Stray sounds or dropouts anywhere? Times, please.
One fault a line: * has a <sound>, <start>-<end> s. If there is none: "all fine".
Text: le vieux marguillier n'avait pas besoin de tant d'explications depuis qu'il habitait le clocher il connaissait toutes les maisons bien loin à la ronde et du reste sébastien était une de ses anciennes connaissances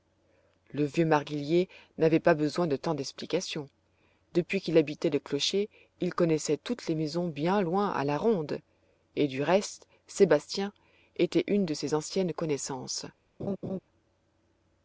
* has a laugh, 13.4-13.8 s